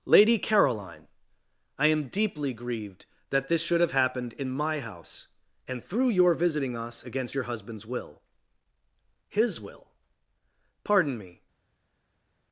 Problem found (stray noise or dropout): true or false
false